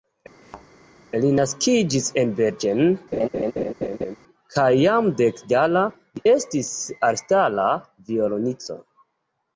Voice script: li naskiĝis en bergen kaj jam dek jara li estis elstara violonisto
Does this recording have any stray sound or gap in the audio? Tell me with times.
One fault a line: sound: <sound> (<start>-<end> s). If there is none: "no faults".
sound: thud (0.4-0.7 s)
sound: laugh (3.1-4.2 s)